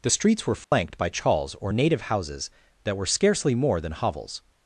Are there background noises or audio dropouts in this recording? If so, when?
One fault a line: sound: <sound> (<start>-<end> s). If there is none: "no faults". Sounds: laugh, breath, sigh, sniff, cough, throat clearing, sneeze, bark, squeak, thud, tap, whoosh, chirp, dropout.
sound: dropout (0.6-0.7 s)